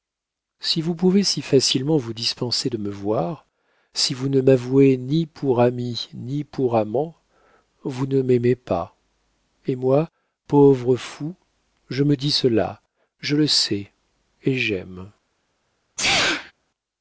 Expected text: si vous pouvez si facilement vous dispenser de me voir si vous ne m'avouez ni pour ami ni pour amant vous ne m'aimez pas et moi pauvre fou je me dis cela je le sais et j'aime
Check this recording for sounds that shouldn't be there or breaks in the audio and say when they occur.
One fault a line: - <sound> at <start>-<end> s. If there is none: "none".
- sneeze at 16.0-16.5 s